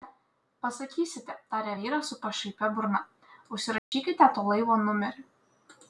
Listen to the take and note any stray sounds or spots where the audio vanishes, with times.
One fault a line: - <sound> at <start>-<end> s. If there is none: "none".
- dropout at 3.8-3.9 s